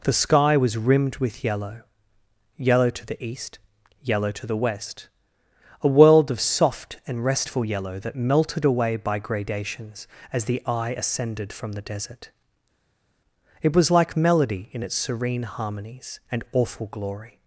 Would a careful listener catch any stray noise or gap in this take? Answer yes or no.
no